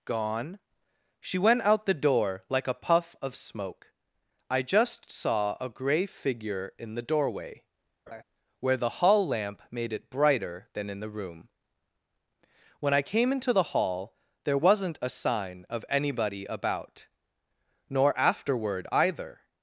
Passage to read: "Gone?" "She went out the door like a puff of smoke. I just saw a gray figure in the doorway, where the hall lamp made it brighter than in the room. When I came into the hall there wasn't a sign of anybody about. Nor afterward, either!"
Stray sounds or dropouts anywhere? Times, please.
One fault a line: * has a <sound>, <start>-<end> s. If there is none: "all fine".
* has a laugh, 8.1-8.2 s